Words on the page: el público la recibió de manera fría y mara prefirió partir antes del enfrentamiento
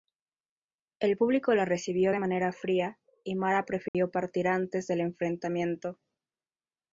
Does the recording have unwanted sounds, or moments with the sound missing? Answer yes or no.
yes